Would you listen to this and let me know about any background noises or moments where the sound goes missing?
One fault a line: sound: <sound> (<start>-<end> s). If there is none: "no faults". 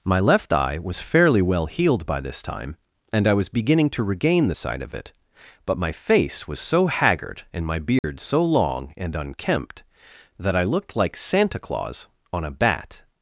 sound: dropout (8.0-8.0 s)